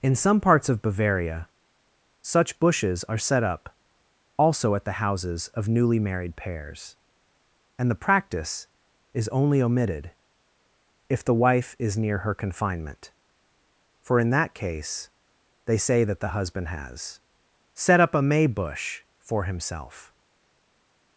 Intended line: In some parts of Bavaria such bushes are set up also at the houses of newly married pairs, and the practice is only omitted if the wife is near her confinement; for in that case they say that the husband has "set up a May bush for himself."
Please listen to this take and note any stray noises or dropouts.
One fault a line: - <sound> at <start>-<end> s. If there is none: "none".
none